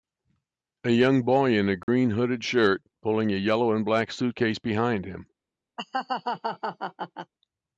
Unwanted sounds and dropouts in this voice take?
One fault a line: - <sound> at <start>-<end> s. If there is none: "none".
- dropout at 1.8-1.9 s
- laugh at 5.8-7.3 s